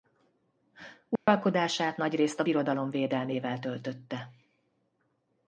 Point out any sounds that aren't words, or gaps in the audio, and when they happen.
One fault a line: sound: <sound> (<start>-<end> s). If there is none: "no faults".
sound: dropout (1.2-1.3 s)